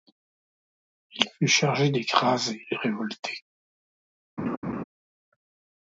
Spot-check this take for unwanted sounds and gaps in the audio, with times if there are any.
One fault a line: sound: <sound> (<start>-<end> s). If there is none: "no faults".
sound: laugh (4.4-4.8 s)